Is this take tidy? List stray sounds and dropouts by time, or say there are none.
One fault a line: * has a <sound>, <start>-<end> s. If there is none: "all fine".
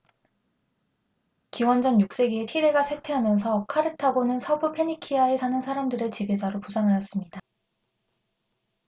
all fine